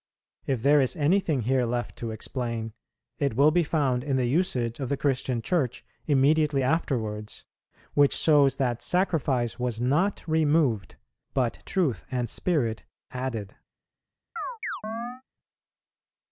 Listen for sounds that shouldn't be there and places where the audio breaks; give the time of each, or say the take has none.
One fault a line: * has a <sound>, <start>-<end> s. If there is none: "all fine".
* has a chirp, 14.4-15.2 s